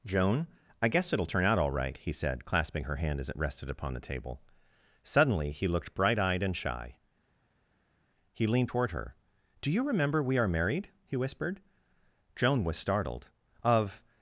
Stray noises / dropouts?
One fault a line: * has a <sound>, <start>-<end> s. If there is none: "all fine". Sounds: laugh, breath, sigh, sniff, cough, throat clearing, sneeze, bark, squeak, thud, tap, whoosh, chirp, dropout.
all fine